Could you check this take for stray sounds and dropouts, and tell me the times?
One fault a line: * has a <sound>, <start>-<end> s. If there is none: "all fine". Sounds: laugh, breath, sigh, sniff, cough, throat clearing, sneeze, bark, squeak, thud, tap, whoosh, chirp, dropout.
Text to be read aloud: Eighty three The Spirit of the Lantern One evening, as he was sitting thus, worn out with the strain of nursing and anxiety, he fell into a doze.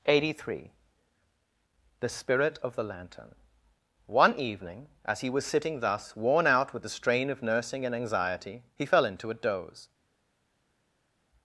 all fine